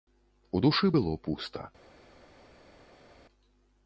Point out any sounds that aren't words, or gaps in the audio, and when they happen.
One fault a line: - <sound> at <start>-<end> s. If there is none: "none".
none